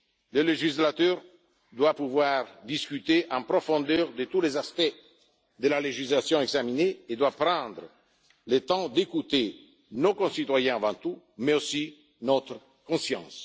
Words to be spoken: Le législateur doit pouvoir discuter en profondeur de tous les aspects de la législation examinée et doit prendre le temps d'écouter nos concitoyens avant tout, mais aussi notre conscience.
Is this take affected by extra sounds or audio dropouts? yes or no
no